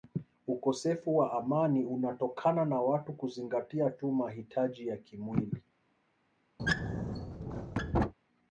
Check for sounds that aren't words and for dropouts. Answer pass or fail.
fail